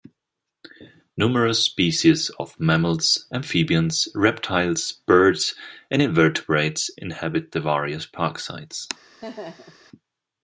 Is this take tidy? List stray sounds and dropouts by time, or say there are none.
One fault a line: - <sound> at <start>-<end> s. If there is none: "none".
- laugh at 9.2-9.8 s